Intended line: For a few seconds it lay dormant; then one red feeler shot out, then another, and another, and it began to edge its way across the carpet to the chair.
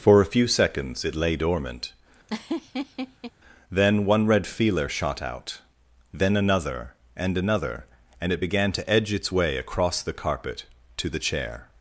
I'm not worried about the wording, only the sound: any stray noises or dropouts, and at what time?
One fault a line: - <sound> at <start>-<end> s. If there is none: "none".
- laugh at 2.3-3.3 s